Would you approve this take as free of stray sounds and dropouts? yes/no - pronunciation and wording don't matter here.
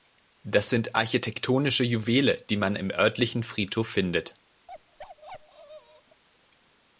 no